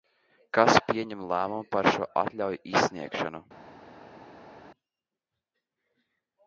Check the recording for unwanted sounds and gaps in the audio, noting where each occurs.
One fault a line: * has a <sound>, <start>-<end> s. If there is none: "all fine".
all fine